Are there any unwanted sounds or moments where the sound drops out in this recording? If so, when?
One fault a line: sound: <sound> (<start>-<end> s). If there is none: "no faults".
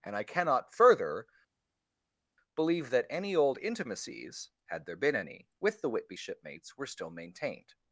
no faults